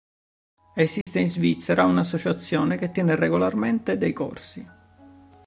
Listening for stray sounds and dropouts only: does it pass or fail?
fail